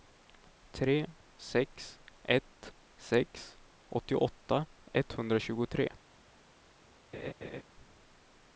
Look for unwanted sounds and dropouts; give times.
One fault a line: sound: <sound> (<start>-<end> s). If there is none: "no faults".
sound: laugh (7.1-7.6 s)